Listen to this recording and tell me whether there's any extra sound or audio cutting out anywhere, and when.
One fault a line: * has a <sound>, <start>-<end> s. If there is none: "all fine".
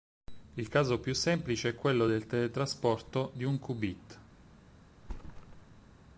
* has a thud, 5.0-5.9 s